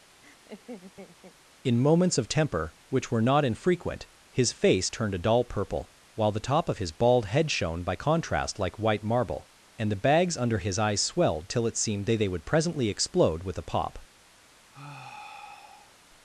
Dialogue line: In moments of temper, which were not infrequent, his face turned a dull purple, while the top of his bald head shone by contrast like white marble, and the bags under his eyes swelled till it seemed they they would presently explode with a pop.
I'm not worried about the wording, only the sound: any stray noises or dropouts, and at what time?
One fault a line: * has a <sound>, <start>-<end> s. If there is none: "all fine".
* has a laugh, 0.2-1.4 s
* has a sigh, 14.7-16.0 s